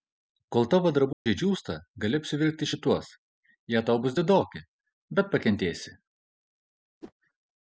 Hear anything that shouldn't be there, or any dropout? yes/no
yes